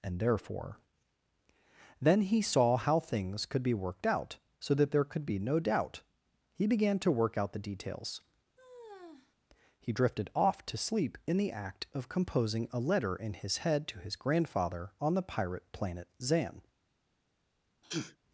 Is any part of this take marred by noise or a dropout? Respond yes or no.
yes